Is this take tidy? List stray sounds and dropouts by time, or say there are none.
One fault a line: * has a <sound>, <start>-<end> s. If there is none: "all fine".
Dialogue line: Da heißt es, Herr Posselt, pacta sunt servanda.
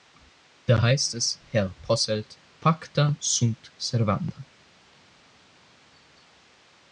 all fine